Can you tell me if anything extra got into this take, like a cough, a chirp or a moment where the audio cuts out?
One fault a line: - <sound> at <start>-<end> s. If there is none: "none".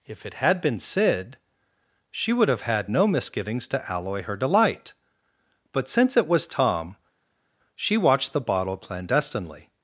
none